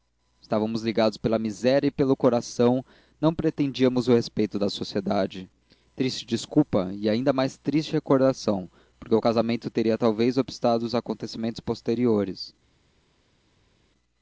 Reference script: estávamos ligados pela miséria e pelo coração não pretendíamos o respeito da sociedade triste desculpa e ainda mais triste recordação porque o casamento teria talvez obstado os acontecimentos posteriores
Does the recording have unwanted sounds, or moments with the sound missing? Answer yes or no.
no